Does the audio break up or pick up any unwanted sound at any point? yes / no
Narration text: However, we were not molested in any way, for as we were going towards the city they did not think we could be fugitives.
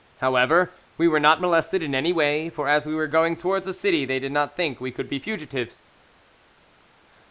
no